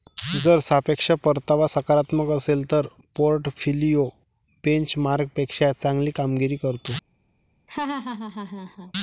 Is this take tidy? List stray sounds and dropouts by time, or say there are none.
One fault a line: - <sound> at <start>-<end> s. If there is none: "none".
- laugh at 7.7-8.9 s